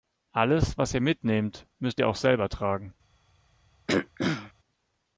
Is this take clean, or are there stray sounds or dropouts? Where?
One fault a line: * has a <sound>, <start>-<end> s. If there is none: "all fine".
* has a throat clearing, 3.9-4.5 s